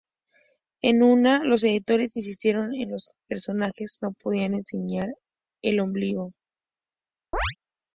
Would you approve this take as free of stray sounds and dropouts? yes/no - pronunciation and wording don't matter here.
no